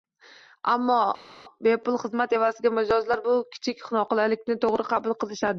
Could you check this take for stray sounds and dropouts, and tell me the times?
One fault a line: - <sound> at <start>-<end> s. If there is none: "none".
none